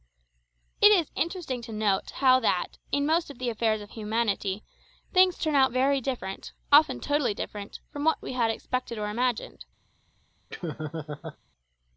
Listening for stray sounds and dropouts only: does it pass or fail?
fail